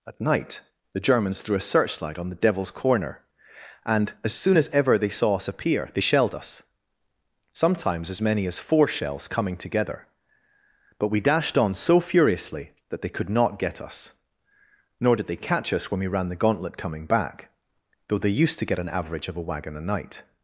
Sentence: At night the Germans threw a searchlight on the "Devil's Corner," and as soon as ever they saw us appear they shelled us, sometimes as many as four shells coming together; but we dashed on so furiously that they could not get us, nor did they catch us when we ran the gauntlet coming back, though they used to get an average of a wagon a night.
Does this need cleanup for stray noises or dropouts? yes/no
no